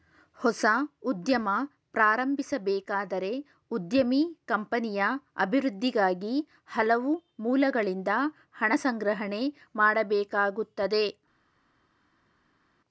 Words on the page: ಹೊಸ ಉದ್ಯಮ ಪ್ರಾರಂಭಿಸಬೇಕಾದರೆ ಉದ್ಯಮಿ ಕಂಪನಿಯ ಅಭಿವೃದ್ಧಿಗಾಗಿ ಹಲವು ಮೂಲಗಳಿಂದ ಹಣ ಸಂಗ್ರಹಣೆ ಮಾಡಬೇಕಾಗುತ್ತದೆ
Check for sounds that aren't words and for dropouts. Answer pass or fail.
pass